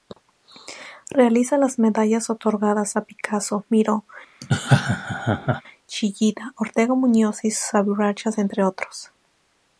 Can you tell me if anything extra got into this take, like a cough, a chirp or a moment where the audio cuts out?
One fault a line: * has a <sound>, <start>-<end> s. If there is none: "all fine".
* has a laugh, 4.4-5.6 s